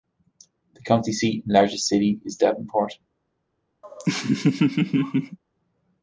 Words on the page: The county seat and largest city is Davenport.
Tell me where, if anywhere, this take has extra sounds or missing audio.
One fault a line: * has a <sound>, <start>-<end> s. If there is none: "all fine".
* has a laugh, 3.8-5.4 s